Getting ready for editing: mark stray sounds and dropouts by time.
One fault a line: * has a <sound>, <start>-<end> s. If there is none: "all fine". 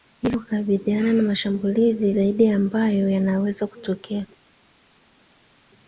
all fine